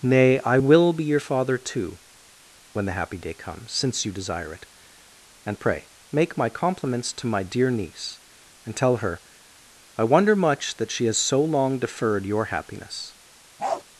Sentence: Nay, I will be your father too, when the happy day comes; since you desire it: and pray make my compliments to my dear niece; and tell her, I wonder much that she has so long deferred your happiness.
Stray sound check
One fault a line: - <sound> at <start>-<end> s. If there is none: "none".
- bark at 13.6-13.8 s